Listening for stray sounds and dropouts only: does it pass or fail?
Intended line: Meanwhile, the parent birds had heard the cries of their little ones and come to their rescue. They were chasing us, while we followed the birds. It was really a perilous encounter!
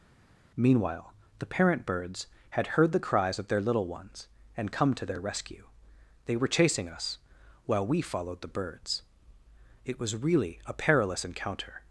pass